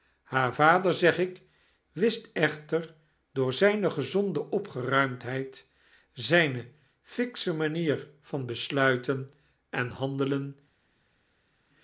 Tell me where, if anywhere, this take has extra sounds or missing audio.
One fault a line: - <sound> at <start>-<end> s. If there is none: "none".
none